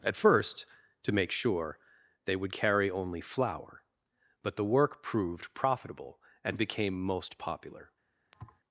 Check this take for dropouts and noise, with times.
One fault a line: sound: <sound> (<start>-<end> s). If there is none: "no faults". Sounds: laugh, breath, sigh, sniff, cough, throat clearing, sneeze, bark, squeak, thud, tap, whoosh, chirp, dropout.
sound: thud (8.3-8.6 s)